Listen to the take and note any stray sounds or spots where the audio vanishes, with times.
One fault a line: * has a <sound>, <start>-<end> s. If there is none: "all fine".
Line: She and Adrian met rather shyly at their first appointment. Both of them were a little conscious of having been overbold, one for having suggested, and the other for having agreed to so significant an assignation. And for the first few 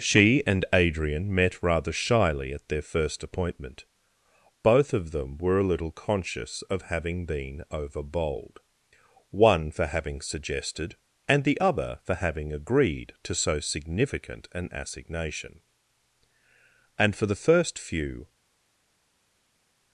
all fine